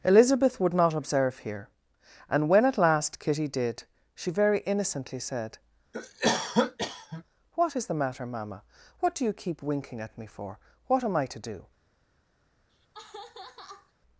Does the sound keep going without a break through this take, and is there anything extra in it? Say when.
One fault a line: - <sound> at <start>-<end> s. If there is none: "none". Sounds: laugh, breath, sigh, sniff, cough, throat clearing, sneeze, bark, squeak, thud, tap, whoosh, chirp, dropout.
- cough at 5.9-7.2 s
- laugh at 12.7-13.9 s